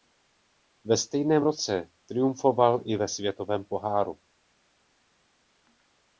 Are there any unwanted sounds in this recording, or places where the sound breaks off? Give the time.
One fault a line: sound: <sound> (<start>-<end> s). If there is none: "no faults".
no faults